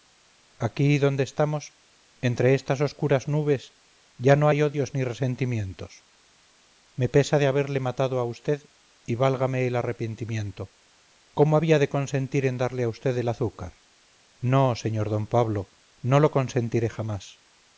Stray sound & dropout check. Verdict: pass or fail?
pass